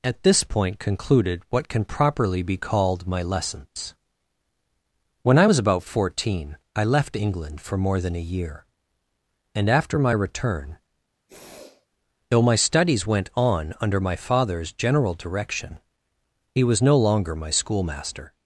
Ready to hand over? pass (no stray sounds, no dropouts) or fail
fail